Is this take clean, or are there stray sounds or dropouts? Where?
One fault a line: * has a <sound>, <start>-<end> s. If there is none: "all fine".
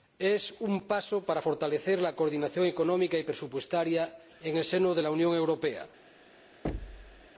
* has a thud, 6.6-7.3 s